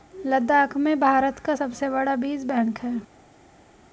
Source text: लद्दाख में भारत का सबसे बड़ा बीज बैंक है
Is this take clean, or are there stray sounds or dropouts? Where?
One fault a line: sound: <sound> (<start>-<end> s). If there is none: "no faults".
no faults